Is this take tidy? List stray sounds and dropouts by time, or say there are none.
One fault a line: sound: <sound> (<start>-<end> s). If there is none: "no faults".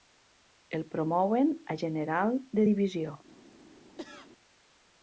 sound: cough (4.0-4.3 s)